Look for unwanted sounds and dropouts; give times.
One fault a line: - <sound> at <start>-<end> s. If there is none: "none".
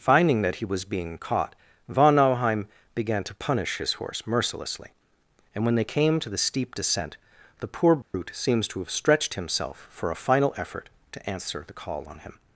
- dropout at 8.0-8.1 s